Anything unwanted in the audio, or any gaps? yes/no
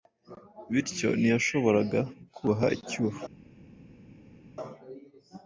no